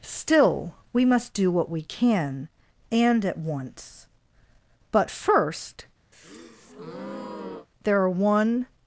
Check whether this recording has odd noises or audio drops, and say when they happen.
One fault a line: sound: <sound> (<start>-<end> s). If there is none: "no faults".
sound: breath (6.1-7.7 s)